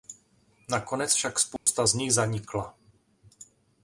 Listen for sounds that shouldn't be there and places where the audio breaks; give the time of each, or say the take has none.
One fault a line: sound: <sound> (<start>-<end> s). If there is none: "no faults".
sound: dropout (1.6-1.7 s)